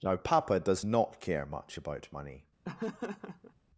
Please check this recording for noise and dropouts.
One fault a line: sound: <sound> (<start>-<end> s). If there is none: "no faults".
sound: laugh (2.6-3.5 s)